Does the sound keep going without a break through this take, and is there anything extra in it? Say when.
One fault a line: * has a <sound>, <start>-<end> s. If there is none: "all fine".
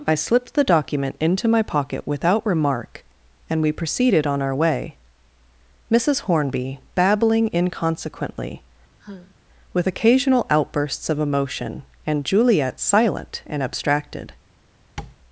* has a sigh, 9.0-9.3 s
* has a tap, 15.0-15.2 s